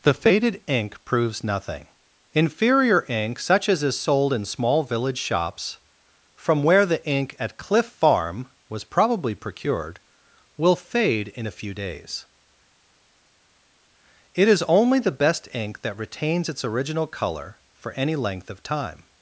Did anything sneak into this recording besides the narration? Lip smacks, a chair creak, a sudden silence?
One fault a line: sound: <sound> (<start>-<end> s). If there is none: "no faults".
no faults